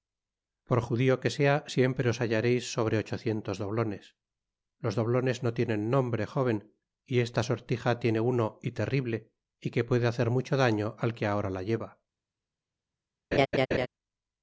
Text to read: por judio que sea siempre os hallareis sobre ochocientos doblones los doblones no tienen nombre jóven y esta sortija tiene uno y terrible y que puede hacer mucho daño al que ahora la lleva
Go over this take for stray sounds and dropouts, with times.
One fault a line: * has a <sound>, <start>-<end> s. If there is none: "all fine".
* has a laugh, 13.3-13.9 s